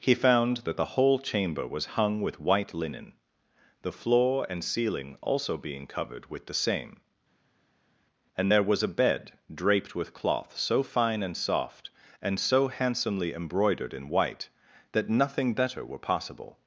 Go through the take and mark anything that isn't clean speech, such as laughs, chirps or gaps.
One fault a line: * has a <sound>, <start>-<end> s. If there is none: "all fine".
all fine